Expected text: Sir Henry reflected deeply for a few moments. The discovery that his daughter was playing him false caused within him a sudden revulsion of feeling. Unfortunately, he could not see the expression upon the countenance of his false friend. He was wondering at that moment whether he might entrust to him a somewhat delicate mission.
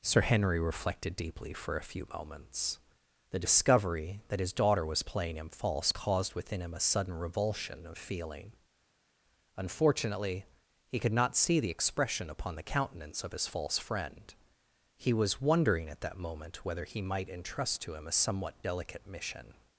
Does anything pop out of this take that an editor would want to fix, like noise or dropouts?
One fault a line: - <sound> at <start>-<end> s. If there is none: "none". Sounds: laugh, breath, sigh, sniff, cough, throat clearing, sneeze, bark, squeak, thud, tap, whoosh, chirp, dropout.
none